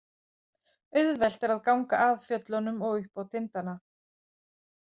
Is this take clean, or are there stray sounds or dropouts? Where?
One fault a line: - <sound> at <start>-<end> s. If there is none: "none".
none